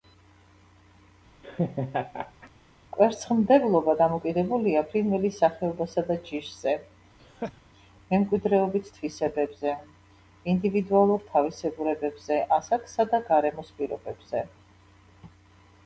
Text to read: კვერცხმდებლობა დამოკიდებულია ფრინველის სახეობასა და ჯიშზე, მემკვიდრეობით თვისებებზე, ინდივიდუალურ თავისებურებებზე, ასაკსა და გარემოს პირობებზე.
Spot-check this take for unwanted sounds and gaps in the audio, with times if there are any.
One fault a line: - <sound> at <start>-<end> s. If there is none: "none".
- laugh at 1.4-2.5 s
- laugh at 7.2-7.6 s